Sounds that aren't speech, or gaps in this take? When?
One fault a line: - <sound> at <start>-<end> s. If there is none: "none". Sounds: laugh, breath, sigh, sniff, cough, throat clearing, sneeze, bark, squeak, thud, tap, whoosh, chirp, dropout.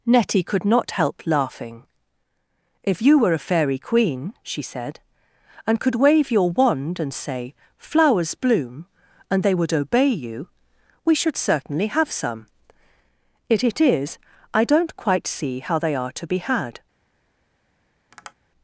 - tap at 18.1-18.3 s